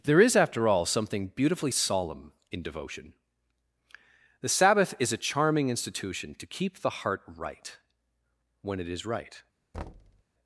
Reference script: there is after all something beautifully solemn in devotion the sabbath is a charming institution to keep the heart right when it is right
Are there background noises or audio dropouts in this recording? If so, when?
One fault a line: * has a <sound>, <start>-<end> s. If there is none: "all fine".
* has a thud, 9.7-10.2 s